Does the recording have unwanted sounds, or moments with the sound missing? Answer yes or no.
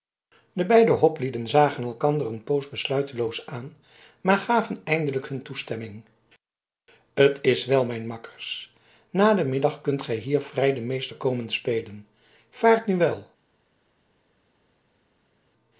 no